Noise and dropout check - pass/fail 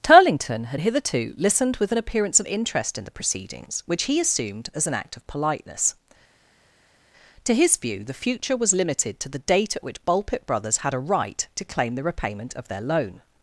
pass